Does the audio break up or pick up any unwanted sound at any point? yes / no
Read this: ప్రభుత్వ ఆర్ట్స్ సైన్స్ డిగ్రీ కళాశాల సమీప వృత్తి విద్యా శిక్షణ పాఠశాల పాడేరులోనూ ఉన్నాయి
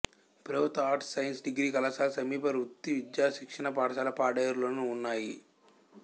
no